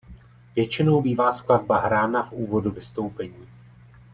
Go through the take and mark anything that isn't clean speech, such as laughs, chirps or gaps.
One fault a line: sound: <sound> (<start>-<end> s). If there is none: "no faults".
no faults